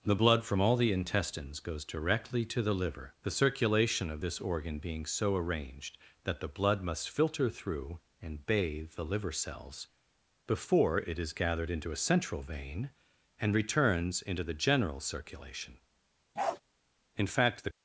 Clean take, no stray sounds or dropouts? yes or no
no